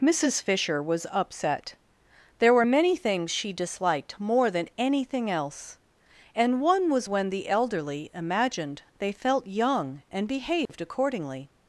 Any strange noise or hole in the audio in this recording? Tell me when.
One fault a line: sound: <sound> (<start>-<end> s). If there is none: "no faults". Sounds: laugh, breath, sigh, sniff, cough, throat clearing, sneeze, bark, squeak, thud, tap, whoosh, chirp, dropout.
sound: dropout (10.7-10.7 s)